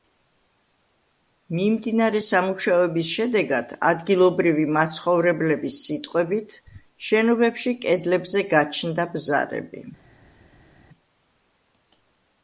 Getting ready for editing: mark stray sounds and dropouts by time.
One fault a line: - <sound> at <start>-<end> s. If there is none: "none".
none